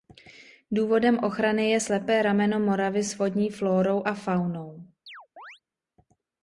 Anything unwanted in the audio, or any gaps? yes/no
yes